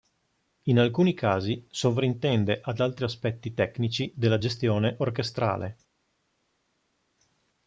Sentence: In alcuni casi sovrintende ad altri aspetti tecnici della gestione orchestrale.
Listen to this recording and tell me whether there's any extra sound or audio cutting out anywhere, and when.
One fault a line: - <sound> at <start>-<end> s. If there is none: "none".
none